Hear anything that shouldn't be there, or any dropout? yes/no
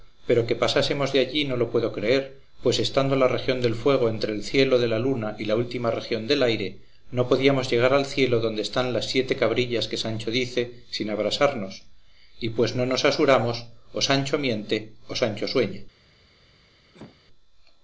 yes